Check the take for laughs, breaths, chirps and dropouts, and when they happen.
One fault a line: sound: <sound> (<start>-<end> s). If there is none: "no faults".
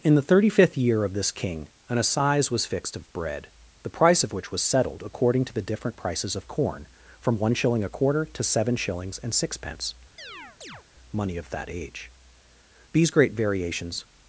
sound: chirp (10.2-10.8 s)